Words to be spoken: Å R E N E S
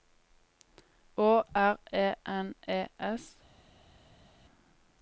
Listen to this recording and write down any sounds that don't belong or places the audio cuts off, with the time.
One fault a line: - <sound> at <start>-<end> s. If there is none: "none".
none